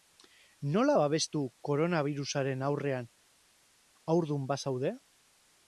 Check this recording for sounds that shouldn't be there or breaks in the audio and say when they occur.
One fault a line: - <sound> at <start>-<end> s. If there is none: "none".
none